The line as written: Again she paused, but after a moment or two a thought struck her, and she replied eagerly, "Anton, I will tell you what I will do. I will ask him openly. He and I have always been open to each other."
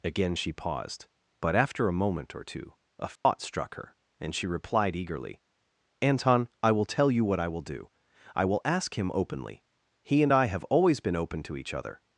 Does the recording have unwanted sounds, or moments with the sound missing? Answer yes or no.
yes